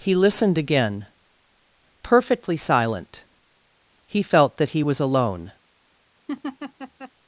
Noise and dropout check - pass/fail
fail